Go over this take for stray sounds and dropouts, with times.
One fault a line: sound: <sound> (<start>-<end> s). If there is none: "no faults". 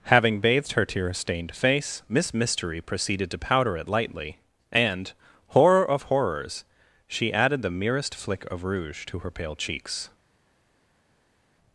no faults